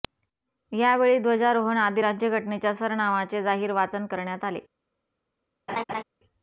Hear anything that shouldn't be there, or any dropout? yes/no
yes